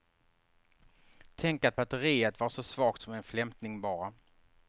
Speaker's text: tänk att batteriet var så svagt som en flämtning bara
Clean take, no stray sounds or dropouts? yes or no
yes